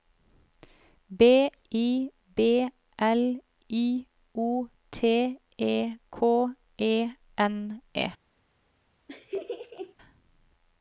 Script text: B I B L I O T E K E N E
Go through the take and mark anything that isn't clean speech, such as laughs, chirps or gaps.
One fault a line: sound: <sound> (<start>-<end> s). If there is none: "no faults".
sound: laugh (9.1-9.9 s)